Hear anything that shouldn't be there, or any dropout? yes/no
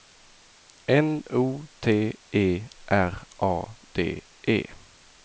no